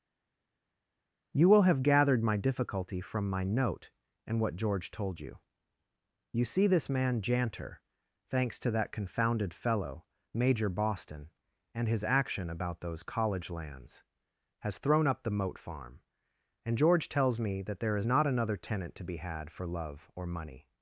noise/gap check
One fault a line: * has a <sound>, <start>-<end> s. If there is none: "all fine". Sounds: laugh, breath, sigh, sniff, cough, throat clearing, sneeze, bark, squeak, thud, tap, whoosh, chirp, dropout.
all fine